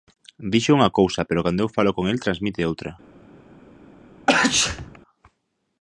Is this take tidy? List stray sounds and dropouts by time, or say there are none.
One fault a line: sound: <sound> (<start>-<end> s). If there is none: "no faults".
sound: sneeze (4.3-5.0 s)